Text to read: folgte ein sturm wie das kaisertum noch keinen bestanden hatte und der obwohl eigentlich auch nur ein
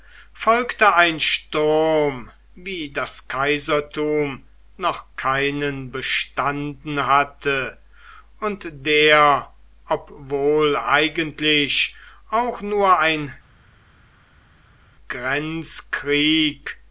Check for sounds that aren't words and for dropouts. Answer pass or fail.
pass